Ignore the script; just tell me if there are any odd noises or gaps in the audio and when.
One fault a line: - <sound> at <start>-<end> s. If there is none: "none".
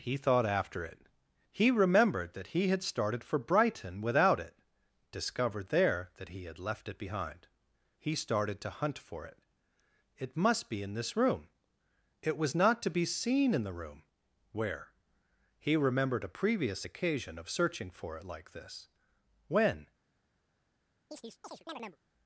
- chirp at 21.1-22.0 s